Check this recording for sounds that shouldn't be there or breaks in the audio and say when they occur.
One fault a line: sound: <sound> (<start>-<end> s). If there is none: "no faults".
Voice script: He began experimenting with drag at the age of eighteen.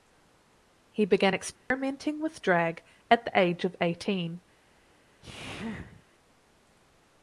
sound: dropout (1.6-1.7 s)
sound: sneeze (5.2-6.0 s)